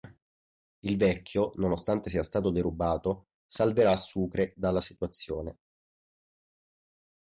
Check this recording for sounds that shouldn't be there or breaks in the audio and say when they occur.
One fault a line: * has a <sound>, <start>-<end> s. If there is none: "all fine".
all fine